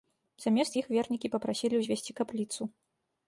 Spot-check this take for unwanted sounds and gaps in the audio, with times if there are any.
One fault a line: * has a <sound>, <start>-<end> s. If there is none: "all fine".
all fine